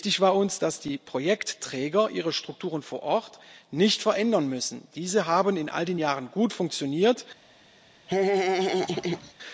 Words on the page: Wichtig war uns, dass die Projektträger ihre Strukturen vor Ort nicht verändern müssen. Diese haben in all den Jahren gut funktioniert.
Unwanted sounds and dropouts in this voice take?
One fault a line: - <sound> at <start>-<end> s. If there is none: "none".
- laugh at 8.1-9.3 s